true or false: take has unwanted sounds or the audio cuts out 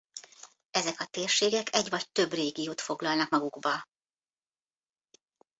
false